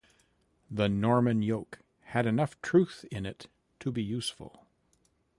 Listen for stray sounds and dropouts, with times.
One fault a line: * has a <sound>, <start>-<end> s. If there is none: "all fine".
all fine